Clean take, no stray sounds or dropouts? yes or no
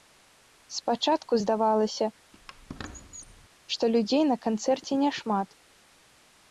no